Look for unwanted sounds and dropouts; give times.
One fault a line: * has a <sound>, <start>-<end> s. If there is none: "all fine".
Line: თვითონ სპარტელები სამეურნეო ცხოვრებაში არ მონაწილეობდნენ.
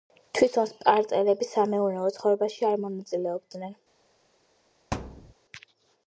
* has a thud, 4.9-5.3 s